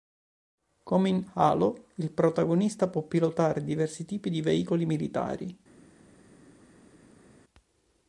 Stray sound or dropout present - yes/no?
no